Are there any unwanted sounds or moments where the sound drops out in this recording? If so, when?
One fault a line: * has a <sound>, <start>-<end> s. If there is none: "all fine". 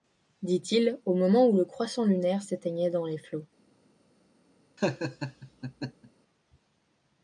* has a laugh, 4.8-6.1 s